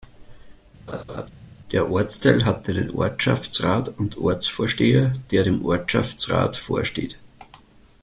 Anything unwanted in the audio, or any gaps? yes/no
yes